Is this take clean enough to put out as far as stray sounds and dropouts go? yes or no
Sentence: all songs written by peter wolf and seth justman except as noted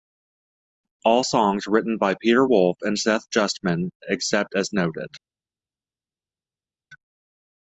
yes